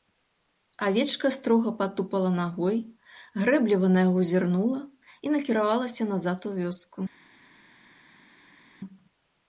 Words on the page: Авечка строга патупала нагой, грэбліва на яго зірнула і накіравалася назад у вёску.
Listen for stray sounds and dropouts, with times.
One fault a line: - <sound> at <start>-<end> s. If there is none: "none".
none